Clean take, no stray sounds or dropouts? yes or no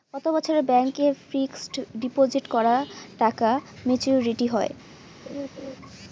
no